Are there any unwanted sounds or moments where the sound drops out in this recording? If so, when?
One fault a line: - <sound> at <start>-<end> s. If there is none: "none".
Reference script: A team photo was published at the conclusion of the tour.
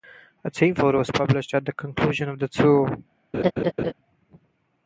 - laugh at 3.3-3.9 s